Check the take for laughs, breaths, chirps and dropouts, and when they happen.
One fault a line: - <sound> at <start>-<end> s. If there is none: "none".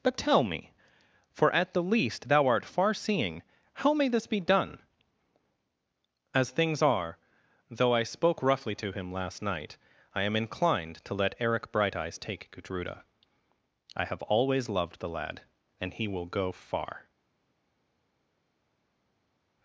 none